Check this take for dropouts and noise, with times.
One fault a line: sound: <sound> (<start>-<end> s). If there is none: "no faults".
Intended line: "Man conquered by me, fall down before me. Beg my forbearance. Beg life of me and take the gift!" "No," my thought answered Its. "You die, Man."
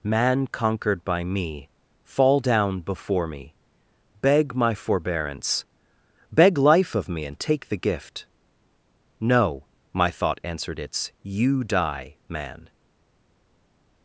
no faults